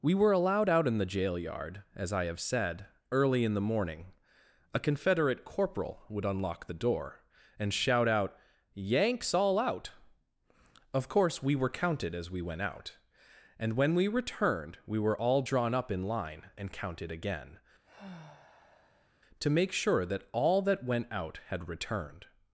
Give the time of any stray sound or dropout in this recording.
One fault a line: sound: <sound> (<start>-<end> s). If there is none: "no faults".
sound: sigh (17.8-19.1 s)